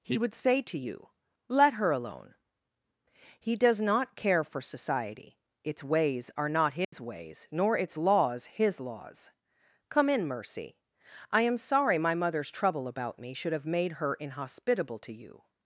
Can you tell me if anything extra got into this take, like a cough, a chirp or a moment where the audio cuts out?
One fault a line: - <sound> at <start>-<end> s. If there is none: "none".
- dropout at 6.8-6.9 s